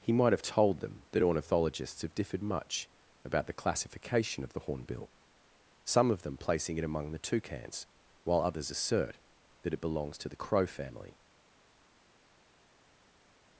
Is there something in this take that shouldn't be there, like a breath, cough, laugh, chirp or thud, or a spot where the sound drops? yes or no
no